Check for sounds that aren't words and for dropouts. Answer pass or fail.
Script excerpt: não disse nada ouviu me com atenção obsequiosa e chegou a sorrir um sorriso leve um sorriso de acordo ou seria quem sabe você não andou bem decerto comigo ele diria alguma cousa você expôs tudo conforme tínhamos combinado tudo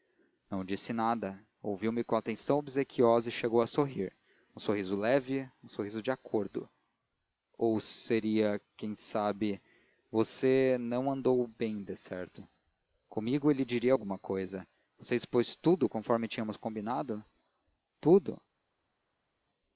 pass